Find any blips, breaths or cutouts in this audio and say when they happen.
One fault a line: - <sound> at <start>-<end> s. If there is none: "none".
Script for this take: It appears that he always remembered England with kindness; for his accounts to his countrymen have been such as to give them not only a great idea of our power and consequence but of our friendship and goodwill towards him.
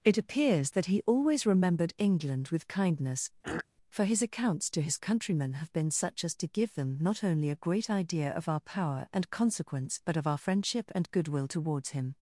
- throat clearing at 3.4-3.7 s